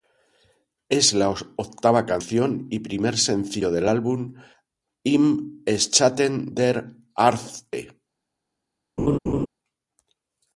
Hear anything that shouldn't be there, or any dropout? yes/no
yes